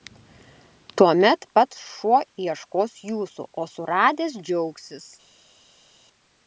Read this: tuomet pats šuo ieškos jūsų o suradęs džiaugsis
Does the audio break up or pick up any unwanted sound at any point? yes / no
no